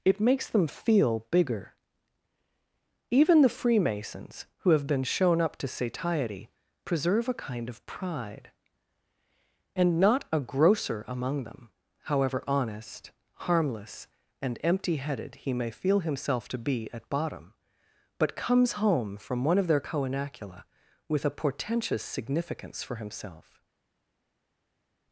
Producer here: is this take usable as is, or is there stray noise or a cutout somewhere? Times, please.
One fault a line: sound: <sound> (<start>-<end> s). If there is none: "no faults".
no faults